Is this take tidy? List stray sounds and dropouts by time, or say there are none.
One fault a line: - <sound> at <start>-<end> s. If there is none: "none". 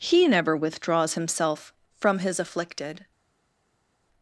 none